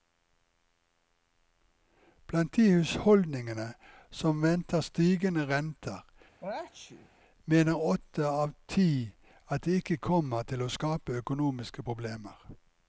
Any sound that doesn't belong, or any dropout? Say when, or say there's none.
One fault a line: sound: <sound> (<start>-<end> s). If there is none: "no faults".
sound: sneeze (6.4-7.1 s)